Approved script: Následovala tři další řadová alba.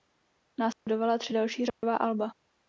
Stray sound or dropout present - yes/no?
yes